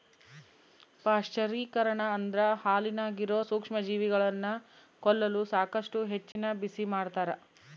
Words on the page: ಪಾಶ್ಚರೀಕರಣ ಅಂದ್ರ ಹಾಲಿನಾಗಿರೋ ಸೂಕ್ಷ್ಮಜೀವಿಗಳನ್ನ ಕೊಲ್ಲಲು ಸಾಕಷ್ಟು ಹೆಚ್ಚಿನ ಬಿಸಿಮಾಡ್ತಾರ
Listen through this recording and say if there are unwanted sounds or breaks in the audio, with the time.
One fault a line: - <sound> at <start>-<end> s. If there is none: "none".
- dropout at 6.3-6.4 s